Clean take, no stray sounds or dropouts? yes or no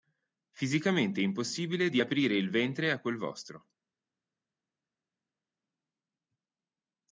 yes